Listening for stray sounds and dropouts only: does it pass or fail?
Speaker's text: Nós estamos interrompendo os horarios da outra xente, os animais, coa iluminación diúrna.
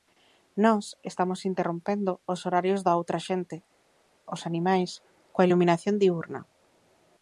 pass